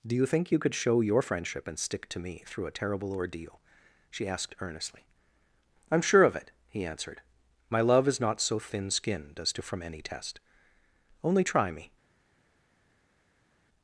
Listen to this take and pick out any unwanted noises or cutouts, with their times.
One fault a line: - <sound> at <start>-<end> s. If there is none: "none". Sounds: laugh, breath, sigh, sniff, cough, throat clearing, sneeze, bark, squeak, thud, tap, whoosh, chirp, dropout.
none